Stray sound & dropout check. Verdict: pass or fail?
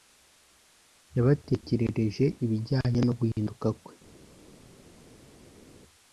pass